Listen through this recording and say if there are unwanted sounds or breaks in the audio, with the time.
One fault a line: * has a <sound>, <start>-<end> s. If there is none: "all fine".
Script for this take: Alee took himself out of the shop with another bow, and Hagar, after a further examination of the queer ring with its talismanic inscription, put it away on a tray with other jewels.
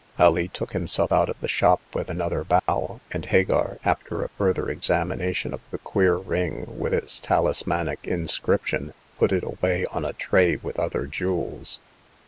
* has a dropout, 2.6-2.7 s